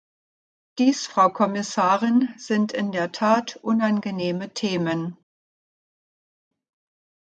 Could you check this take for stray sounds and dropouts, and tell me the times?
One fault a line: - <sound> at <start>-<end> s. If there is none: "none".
none